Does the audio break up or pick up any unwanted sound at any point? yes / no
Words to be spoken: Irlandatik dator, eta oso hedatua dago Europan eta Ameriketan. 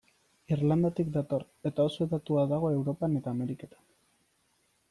no